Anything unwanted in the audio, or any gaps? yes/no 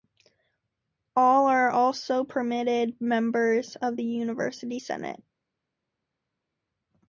no